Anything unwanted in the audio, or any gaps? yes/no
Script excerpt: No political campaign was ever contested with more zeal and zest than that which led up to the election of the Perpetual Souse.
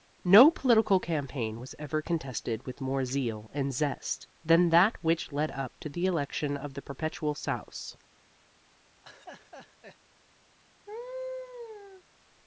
yes